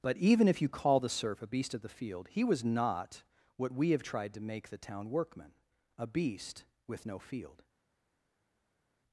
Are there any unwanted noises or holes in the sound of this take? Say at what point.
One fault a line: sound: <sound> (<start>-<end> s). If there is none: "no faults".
no faults